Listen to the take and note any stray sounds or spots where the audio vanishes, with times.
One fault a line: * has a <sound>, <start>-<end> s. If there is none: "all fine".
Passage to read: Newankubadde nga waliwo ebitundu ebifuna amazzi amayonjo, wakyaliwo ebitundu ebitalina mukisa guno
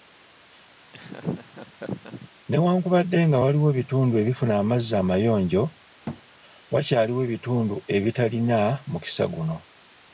* has a laugh, 0.9-2.3 s
* has a thud, 6.1-6.2 s